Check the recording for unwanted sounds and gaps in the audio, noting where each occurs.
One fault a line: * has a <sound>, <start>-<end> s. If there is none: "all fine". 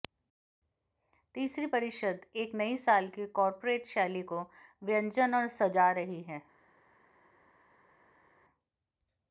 all fine